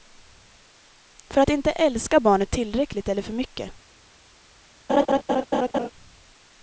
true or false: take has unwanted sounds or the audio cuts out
true